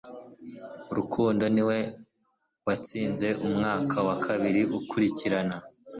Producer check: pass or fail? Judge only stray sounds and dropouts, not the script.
pass